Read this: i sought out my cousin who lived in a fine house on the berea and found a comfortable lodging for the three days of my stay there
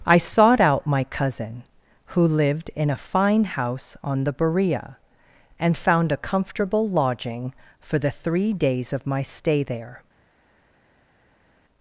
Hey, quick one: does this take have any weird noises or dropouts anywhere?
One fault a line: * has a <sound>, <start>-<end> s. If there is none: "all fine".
all fine